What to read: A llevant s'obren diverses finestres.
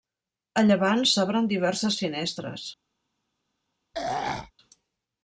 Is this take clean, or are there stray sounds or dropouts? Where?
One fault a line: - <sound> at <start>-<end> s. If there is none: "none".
- throat clearing at 3.9-4.5 s